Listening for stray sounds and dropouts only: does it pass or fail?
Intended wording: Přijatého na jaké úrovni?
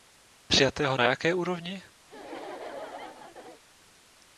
fail